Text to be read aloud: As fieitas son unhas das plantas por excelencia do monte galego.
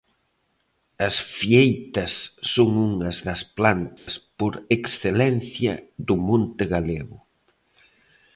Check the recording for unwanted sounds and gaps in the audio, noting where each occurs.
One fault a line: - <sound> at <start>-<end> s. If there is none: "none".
- dropout at 4.0-4.1 s